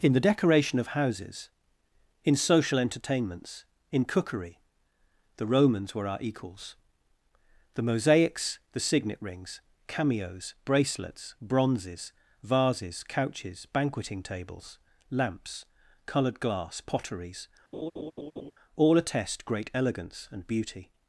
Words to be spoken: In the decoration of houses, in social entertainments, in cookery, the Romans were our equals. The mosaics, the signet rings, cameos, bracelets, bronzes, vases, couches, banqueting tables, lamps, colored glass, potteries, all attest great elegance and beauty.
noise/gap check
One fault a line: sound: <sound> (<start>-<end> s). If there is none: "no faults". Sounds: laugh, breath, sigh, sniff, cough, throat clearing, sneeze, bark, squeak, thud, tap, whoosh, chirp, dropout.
sound: laugh (17.7-18.5 s)